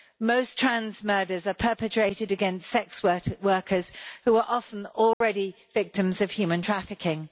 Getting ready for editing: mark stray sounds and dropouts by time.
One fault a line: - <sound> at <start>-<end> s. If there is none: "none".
- dropout at 5.1-5.2 s